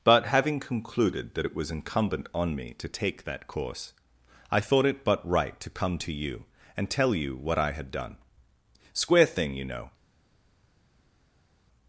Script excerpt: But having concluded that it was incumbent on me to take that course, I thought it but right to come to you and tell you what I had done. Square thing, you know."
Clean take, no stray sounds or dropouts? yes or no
yes